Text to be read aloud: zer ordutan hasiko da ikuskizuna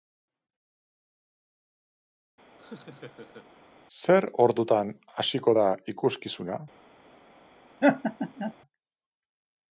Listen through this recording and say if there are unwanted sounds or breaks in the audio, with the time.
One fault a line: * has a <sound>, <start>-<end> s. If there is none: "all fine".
* has a laugh, 2.6-3.5 s
* has a laugh, 7.8-8.5 s